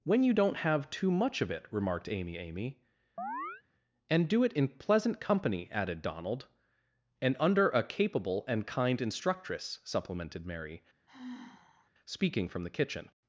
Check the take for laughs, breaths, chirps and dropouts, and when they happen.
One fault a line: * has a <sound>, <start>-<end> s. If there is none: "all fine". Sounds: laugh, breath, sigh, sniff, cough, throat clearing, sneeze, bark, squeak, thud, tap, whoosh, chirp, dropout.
* has a chirp, 3.2-3.6 s
* has a sigh, 11.1-11.9 s